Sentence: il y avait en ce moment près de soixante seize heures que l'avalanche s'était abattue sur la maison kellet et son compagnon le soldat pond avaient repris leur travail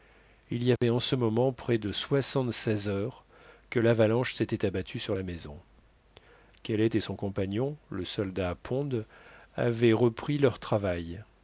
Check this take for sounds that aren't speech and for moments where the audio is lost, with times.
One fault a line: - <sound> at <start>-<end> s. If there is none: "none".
- dropout at 0.8-0.8 s